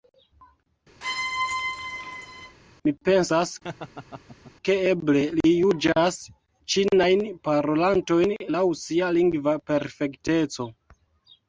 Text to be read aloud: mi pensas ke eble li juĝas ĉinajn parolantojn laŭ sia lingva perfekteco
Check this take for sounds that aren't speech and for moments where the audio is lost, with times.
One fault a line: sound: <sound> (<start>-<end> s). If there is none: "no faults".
sound: squeak (1.0-2.6 s)
sound: laugh (3.6-4.5 s)